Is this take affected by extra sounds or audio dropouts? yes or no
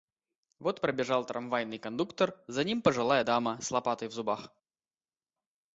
no